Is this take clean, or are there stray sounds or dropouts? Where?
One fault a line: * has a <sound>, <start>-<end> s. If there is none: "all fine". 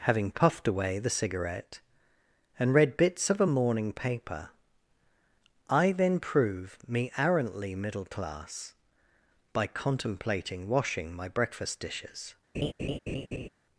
* has a laugh, 12.5-13.5 s